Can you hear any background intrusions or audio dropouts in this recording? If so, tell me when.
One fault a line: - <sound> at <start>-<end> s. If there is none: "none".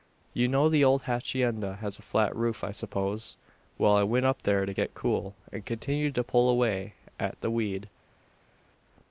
none